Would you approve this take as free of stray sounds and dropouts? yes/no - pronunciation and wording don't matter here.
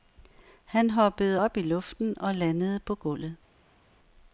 yes